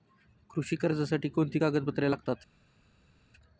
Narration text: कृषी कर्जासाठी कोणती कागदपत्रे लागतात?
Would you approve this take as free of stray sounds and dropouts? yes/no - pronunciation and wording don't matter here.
yes